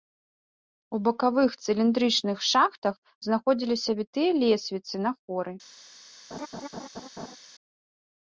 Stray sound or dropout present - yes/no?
yes